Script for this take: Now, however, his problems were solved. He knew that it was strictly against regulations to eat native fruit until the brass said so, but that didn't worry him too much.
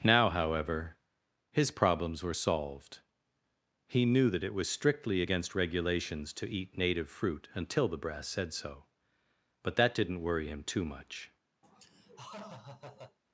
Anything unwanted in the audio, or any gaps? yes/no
yes